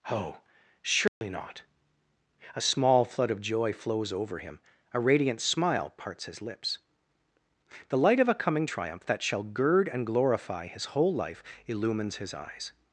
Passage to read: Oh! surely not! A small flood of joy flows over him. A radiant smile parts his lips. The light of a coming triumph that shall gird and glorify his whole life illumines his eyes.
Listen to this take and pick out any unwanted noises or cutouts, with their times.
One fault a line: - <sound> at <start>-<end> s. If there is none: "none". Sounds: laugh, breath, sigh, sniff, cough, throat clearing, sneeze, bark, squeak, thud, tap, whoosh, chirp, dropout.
- dropout at 1.1-1.2 s